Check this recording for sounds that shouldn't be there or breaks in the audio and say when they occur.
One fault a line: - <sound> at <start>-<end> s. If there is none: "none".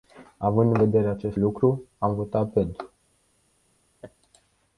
- laugh at 4.0-4.1 s